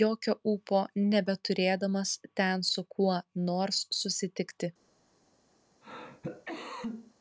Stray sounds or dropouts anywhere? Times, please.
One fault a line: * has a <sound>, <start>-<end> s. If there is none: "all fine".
* has a cough, 5.8-7.1 s